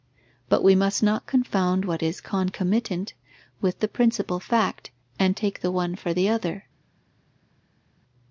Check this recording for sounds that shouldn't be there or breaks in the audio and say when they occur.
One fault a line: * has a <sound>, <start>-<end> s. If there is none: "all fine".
all fine